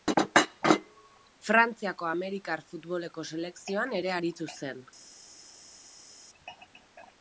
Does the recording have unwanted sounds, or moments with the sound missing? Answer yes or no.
no